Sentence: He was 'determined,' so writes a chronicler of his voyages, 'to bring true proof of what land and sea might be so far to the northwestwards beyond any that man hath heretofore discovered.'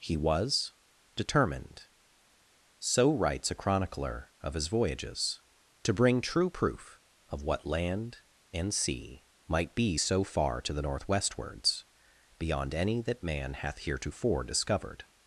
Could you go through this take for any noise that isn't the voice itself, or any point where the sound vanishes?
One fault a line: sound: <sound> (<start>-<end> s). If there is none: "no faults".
no faults